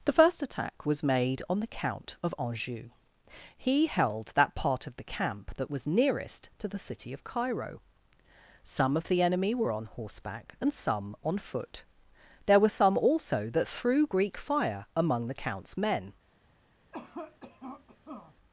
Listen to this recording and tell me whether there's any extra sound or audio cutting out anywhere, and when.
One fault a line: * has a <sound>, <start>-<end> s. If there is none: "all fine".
* has a cough, 16.9-18.4 s